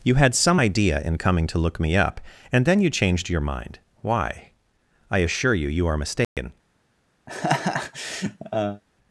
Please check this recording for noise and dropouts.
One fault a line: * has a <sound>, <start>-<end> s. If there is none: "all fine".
* has a dropout, 6.2-6.4 s
* has a laugh, 7.3-8.8 s